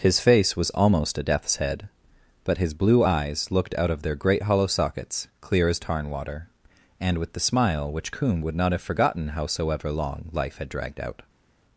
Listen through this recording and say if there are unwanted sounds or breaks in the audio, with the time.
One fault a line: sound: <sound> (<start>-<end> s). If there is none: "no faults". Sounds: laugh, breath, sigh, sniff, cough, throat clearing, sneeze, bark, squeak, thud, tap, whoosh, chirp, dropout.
no faults